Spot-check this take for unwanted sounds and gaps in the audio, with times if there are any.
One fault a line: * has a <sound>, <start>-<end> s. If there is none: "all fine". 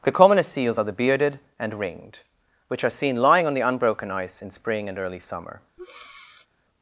* has a breath, 5.8-6.5 s